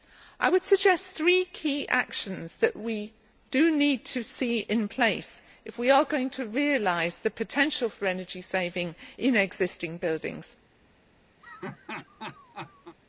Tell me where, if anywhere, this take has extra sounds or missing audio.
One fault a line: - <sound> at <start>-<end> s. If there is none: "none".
- laugh at 11.4-13.0 s